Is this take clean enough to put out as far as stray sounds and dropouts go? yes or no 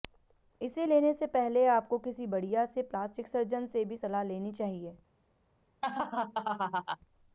no